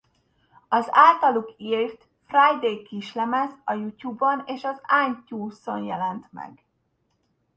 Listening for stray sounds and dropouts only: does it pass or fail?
pass